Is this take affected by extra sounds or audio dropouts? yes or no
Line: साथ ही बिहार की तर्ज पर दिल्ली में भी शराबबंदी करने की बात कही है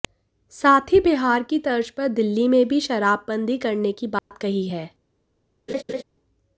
yes